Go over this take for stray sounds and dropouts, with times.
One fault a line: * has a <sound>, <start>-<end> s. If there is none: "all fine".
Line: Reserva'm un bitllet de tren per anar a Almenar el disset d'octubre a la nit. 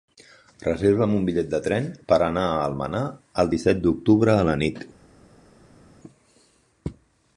all fine